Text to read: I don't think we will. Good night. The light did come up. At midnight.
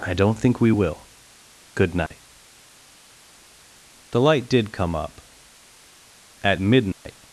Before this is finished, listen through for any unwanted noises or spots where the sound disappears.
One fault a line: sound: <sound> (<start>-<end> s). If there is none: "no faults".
sound: dropout (2.1-2.1 s)
sound: dropout (6.9-7.1 s)